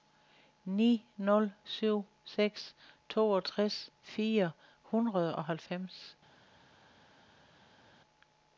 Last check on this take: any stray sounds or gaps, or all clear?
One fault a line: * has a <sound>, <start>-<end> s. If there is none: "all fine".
all fine